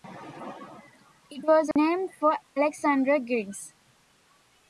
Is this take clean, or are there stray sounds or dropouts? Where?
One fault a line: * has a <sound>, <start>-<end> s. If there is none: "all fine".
* has a dropout, 1.7-1.8 s